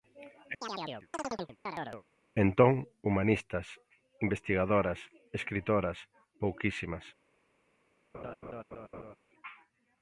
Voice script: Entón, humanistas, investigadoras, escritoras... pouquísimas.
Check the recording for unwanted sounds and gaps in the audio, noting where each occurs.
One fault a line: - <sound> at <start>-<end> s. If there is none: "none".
- chirp at 0.6-2.0 s
- laugh at 8.1-9.2 s